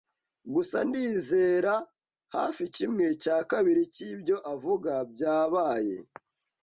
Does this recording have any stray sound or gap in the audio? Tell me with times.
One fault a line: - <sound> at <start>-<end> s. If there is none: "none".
none